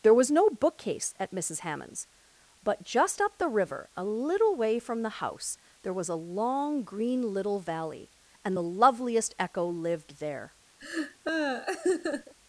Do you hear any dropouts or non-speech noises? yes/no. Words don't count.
yes